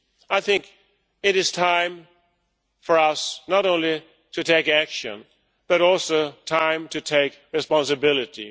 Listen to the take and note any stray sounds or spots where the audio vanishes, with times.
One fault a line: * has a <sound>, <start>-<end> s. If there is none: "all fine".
all fine